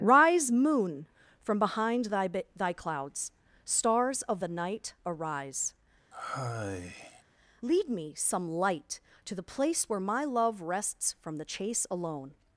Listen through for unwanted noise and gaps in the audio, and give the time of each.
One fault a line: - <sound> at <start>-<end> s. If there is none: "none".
- sigh at 6.1-7.2 s